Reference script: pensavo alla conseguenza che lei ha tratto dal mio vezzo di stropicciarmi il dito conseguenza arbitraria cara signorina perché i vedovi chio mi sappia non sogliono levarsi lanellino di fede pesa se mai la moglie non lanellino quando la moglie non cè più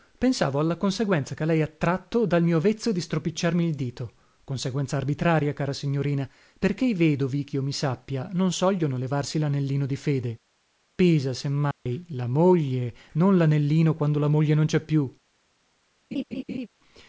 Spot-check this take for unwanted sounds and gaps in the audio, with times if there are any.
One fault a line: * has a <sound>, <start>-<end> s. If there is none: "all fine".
* has a dropout, 11.7-11.9 s
* has a laugh, 16.1-16.7 s